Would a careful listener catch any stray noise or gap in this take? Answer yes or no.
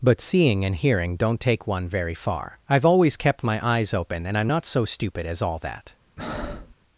yes